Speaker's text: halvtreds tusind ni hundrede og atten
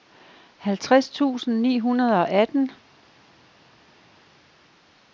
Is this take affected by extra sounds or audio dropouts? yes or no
no